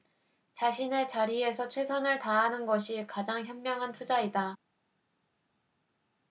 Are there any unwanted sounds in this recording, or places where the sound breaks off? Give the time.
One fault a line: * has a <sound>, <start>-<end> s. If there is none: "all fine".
all fine